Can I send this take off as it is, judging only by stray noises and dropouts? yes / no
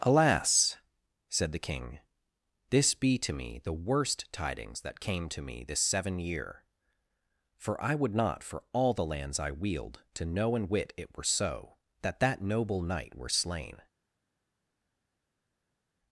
yes